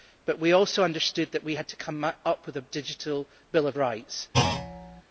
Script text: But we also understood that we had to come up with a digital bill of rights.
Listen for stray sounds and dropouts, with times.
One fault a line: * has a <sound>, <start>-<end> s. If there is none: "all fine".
* has a thud, 4.3-5.0 s